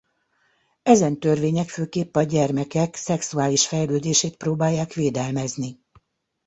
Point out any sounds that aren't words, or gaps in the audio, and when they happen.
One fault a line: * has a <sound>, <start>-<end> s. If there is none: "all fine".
all fine